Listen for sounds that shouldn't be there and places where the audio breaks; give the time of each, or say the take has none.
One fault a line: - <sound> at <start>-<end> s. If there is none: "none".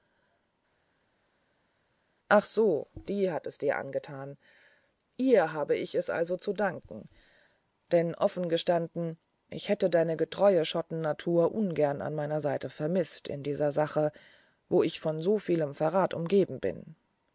none